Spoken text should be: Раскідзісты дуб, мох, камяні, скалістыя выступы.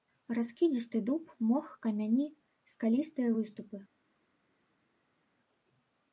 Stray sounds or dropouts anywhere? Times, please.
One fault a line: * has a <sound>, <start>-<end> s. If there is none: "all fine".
all fine